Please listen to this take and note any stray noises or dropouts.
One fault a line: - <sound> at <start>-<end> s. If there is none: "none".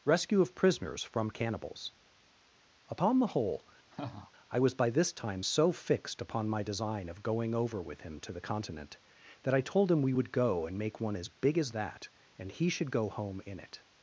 - laugh at 3.9-4.3 s